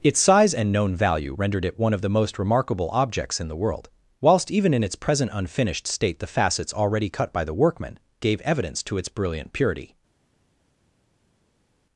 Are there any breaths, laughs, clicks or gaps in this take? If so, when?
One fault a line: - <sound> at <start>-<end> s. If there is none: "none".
none